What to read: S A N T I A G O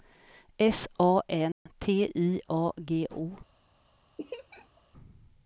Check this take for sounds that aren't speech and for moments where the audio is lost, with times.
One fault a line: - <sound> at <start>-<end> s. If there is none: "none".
- dropout at 1.5-1.7 s
- laugh at 4.2-4.8 s